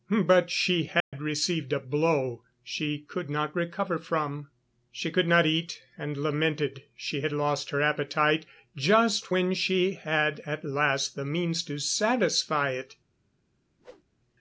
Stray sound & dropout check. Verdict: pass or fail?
fail